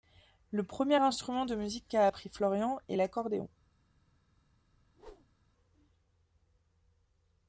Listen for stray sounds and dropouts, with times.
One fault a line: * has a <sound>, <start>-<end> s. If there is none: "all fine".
* has a whoosh, 4.7-5.4 s